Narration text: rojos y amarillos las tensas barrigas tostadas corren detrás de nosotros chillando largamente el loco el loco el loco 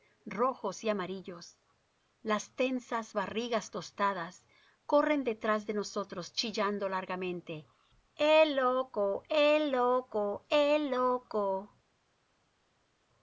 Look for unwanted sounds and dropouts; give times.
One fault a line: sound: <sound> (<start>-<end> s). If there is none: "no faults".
no faults